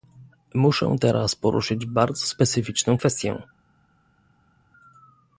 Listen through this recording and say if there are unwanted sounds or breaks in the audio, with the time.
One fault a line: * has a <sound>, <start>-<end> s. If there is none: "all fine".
all fine